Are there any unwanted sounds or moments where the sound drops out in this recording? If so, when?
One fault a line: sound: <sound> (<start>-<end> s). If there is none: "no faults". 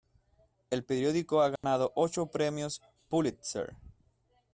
sound: dropout (1.6-1.6 s)